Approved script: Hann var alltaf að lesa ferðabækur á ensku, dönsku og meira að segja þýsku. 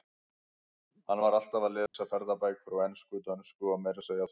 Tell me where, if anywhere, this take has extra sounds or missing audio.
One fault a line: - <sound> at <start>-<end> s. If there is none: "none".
- dropout at 1.9-1.9 s